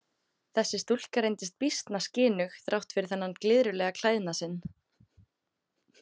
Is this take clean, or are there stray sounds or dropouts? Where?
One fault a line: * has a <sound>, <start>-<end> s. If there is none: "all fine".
all fine